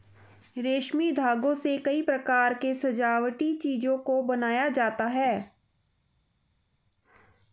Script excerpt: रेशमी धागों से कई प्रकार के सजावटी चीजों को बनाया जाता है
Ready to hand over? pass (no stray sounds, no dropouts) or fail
pass